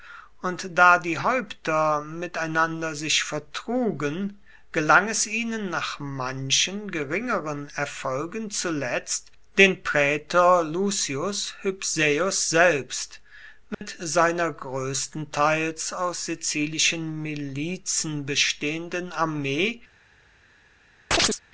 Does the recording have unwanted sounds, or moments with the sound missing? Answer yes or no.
yes